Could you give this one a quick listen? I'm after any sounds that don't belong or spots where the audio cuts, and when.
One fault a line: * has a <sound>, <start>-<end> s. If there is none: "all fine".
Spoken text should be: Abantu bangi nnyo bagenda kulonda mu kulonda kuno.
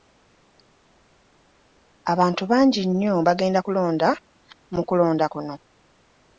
all fine